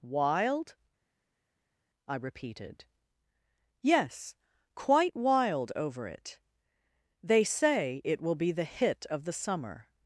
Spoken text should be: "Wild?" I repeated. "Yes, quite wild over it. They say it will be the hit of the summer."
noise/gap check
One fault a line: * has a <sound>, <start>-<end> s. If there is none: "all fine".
all fine